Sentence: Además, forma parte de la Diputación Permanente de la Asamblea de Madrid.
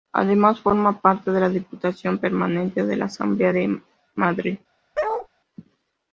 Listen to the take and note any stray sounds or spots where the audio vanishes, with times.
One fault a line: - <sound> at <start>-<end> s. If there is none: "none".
- bark at 4.9-5.3 s